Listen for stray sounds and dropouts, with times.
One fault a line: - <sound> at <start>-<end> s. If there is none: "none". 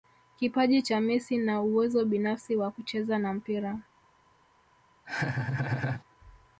- laugh at 5.0-6.0 s